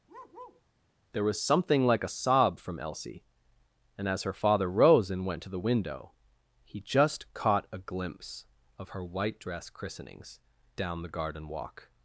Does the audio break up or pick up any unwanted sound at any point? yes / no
yes